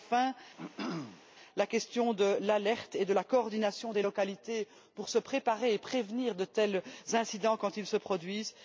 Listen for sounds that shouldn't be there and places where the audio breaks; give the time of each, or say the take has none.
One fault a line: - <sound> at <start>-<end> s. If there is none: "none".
- throat clearing at 0.6-1.2 s